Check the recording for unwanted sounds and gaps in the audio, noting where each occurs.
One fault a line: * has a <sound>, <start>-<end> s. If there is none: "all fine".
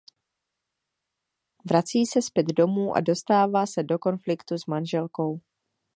all fine